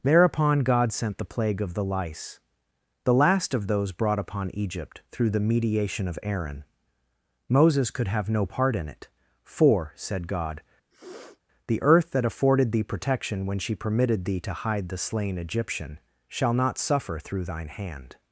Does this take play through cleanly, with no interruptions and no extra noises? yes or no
no